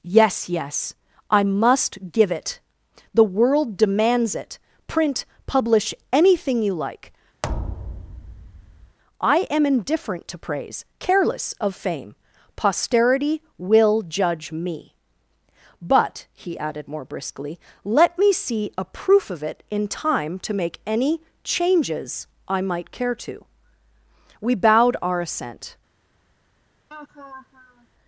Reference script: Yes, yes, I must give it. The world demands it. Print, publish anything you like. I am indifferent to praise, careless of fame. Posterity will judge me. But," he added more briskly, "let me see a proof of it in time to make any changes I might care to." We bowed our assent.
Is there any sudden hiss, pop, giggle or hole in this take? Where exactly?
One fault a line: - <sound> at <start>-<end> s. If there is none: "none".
- thud at 7.4-9.0 s
- laugh at 26.9-27.9 s